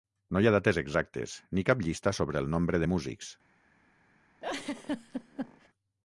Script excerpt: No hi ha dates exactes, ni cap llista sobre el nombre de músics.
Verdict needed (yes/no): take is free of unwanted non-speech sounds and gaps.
no